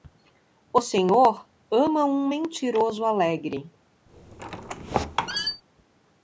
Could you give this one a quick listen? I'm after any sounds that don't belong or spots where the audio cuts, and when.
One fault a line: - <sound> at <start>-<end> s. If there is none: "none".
- squeak at 4.1-5.6 s